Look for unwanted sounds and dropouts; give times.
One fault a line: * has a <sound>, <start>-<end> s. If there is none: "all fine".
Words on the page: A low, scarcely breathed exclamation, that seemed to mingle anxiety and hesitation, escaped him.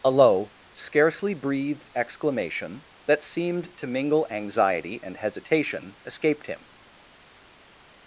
all fine